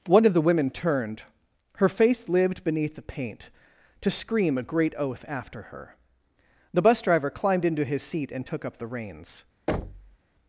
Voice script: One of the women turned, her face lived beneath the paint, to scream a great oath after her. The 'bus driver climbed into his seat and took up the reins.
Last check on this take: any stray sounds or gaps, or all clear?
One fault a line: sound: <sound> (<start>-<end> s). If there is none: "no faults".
sound: thud (9.7-10.2 s)